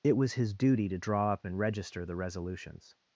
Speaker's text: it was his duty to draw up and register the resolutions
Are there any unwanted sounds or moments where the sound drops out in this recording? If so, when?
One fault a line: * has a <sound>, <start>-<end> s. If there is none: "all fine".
all fine